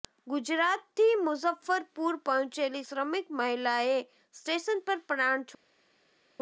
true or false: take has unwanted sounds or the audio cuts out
false